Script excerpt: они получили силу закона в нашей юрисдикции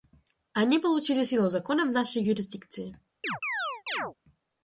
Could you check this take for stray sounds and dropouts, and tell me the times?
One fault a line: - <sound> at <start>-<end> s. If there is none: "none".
- chirp at 3.2-4.1 s